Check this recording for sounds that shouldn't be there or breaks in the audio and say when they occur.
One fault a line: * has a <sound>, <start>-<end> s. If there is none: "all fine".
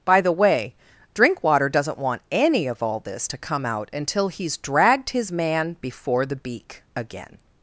all fine